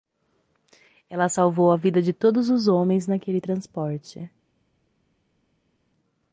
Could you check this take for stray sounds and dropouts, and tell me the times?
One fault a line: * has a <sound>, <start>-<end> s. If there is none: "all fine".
all fine